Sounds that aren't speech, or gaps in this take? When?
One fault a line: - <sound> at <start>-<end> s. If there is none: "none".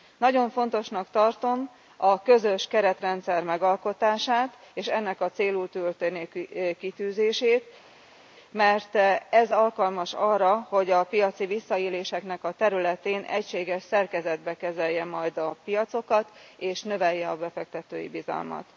none